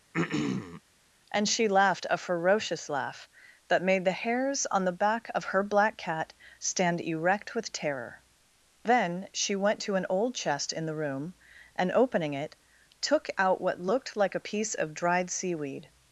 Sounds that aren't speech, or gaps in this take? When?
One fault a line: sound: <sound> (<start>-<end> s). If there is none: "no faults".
sound: throat clearing (0.1-0.8 s)